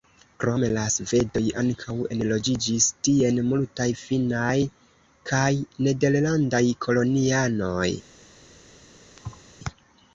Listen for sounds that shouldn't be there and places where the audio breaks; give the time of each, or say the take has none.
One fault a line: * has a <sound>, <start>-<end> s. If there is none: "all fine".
* has a thud, 9.2-9.5 s